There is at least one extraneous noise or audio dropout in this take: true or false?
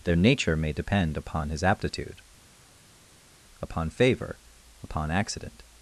false